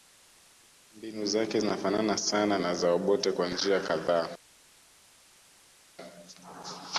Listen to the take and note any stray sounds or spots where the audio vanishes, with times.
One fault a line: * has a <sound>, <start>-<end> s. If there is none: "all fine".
all fine